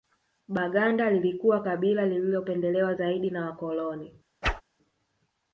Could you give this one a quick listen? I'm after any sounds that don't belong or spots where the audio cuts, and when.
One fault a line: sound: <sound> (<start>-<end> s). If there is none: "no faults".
sound: whoosh (4.4-4.6 s)